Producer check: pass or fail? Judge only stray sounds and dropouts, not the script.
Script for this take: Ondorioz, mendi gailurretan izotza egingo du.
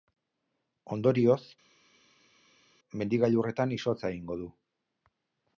pass